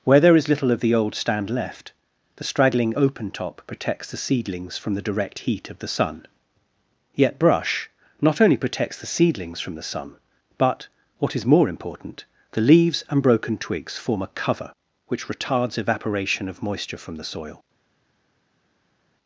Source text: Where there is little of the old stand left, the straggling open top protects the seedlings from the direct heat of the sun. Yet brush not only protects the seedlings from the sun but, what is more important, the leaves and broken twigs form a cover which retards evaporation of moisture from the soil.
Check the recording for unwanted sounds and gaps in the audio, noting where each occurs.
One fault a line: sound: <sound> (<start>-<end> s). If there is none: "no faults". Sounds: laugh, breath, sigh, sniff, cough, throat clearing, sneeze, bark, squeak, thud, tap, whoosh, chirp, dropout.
no faults